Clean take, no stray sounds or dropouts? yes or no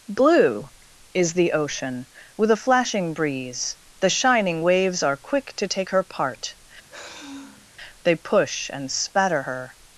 no